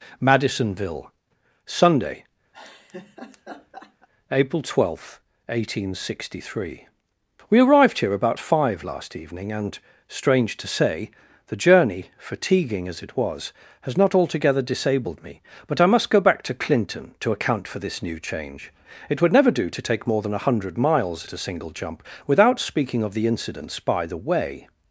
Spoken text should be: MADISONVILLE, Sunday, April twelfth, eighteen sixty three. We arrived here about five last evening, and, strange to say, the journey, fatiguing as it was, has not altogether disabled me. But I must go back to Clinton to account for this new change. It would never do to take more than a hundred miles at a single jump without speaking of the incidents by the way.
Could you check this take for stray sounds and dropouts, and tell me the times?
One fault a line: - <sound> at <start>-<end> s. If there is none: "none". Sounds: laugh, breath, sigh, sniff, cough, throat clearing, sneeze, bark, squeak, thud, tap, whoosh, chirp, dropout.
- laugh at 2.5-4.1 s